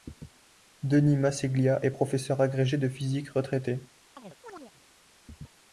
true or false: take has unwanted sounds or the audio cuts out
true